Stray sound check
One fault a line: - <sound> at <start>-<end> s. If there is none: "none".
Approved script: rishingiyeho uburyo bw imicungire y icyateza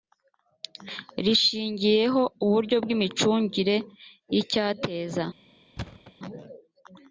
- thud at 5.8-6.1 s